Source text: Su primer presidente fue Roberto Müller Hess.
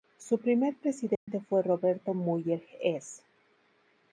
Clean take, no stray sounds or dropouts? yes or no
no